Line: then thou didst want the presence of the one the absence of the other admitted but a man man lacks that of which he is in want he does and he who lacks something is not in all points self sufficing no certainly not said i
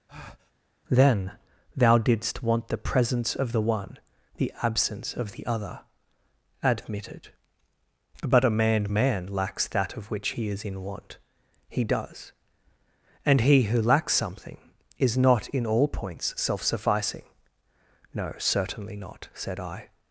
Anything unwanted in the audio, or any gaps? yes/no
yes